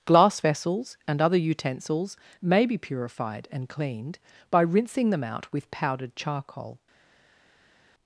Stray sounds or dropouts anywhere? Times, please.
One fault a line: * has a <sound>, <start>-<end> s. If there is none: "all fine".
all fine